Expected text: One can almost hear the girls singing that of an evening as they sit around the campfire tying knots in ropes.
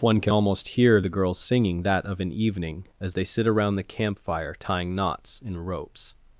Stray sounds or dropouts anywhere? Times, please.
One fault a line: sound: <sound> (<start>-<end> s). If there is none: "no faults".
no faults